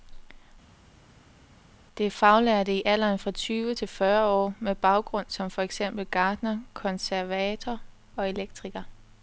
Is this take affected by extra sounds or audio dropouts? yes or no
no